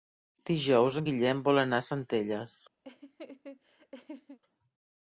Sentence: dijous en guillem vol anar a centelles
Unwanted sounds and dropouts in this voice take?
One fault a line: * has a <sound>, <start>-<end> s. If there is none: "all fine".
* has a laugh, 2.8-4.4 s